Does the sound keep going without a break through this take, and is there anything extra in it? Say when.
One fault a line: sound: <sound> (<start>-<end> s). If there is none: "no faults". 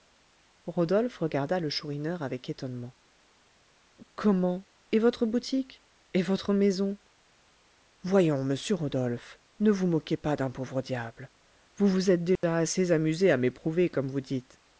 sound: dropout (12.4-12.4 s)